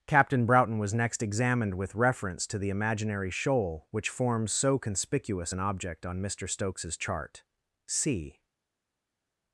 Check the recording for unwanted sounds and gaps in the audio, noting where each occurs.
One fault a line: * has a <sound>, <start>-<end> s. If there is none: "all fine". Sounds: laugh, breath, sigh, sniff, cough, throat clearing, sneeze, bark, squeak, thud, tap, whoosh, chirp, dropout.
all fine